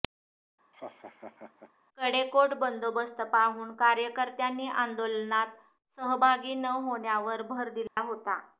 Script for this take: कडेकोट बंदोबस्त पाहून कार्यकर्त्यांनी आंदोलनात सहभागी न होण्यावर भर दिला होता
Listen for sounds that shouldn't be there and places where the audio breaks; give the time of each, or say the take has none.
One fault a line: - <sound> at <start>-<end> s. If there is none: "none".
- laugh at 0.7-1.7 s
- dropout at 7.9-8.0 s